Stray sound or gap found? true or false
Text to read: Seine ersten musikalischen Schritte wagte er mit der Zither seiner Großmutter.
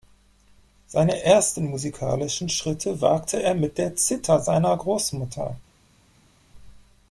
false